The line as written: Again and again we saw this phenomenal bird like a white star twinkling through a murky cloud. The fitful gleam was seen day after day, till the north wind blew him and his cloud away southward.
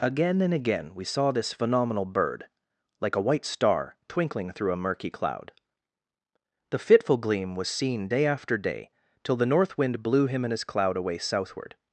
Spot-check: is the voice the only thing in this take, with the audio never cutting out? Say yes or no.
yes